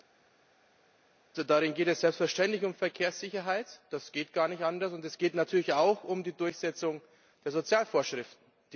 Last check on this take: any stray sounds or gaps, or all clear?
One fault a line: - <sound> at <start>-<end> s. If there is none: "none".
none